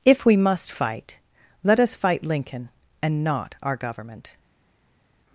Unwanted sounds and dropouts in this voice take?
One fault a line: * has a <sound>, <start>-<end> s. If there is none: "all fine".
all fine